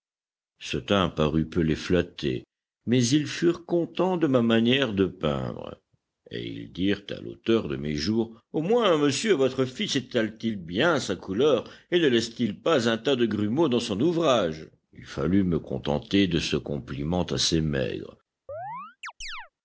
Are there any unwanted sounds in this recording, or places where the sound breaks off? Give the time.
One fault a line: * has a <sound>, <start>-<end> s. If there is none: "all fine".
* has a chirp, 18.5-19.5 s